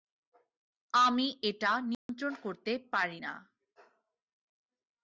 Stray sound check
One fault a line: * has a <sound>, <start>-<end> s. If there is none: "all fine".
* has a dropout, 1.9-2.1 s